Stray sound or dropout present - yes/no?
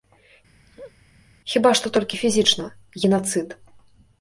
yes